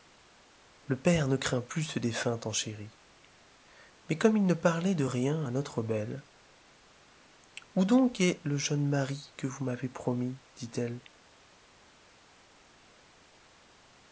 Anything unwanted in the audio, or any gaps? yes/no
no